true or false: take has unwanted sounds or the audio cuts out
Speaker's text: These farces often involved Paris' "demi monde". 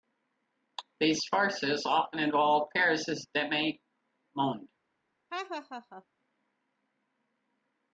true